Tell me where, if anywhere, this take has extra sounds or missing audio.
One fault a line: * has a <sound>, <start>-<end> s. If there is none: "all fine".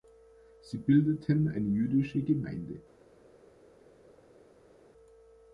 all fine